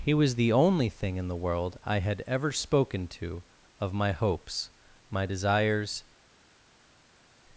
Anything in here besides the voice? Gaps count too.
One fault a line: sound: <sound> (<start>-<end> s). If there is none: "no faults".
no faults